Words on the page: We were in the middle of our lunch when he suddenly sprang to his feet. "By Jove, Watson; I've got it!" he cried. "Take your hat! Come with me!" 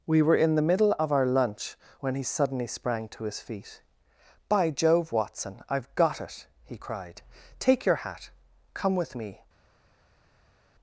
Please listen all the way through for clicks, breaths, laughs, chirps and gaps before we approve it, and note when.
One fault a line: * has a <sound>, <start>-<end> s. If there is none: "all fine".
all fine